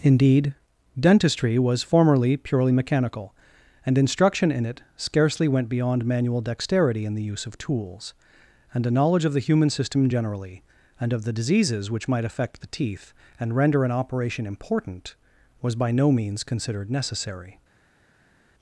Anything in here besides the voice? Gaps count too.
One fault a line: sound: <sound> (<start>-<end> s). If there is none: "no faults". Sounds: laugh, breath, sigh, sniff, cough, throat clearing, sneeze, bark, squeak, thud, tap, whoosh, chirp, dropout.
no faults